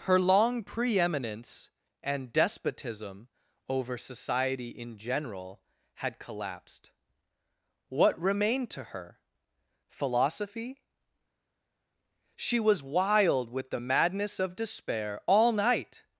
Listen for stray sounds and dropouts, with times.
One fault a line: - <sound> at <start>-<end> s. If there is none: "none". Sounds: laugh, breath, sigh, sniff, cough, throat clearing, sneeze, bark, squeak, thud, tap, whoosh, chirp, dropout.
none